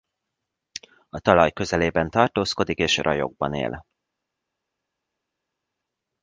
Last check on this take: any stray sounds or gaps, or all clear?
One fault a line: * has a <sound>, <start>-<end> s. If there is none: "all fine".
all fine